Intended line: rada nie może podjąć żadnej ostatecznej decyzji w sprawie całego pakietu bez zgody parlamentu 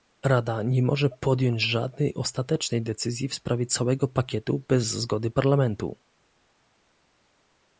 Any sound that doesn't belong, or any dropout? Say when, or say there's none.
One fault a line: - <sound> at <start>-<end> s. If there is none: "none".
none